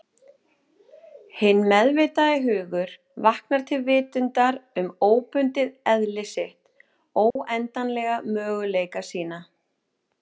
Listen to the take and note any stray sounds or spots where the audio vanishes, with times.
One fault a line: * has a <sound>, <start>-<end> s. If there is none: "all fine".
* has a dropout, 7.3-7.4 s